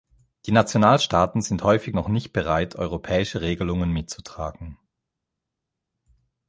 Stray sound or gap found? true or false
false